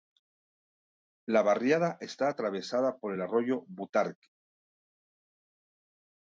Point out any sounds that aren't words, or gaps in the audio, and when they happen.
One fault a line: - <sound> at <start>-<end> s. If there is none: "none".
none